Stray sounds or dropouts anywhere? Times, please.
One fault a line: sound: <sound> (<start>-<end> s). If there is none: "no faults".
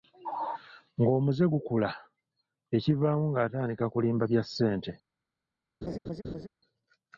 sound: laugh (5.8-6.5 s)